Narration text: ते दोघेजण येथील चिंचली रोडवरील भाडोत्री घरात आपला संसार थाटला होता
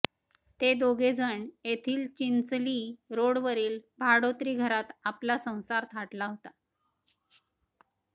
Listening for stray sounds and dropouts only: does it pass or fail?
pass